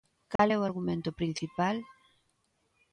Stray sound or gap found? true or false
true